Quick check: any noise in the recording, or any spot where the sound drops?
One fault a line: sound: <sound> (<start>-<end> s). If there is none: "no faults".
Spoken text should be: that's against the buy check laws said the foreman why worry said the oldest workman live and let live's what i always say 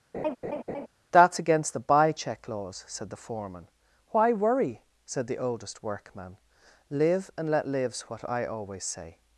sound: laugh (0.1-0.9 s)